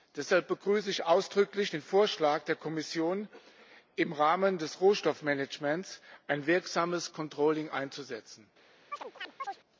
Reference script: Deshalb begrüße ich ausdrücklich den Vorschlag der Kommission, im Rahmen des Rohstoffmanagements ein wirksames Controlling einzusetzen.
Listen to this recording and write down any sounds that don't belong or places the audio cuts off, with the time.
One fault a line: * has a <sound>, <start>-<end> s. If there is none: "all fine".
* has a chirp, 8.9-9.6 s